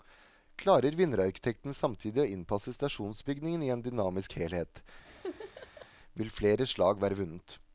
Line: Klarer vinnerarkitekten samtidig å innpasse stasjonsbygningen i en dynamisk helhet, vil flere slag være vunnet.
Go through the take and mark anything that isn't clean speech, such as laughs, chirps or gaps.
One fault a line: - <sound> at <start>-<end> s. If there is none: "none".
- laugh at 5.0-5.9 s